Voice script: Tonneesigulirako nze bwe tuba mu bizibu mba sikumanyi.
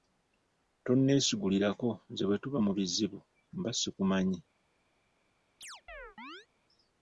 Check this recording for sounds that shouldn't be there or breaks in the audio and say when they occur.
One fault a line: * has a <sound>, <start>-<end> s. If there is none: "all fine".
* has a chirp, 5.6-6.5 s